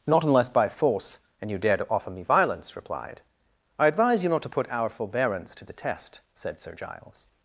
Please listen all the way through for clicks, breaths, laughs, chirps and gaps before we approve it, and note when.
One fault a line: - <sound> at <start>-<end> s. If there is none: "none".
none